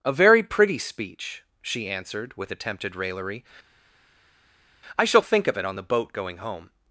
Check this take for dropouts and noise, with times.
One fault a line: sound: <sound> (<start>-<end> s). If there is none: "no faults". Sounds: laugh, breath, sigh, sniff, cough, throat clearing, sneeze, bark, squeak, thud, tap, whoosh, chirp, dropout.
no faults